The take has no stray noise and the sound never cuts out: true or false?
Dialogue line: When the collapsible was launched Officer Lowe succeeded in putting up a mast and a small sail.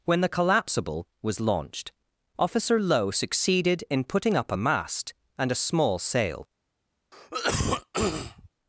false